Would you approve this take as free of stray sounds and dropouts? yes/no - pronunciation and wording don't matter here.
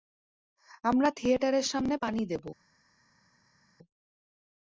yes